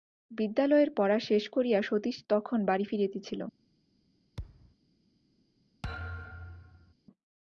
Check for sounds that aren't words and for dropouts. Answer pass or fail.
fail